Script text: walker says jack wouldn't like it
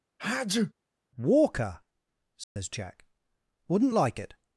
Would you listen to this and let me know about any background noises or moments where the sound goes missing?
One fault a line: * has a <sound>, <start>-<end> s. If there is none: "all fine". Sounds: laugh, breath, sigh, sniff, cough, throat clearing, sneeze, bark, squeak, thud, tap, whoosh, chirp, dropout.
* has a sneeze, 0.2-0.7 s
* has a dropout, 2.4-2.6 s